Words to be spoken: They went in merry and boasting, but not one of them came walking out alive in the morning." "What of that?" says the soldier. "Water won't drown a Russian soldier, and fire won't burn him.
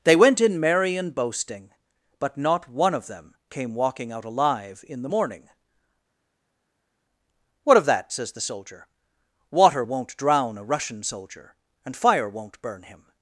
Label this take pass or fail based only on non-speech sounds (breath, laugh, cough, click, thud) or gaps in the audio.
pass